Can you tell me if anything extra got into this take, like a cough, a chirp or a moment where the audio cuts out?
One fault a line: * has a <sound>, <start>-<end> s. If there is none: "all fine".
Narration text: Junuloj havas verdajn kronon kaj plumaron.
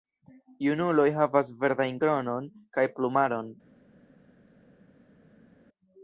all fine